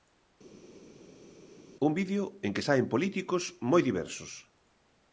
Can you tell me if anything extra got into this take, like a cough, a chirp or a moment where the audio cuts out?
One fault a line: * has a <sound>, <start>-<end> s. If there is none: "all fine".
all fine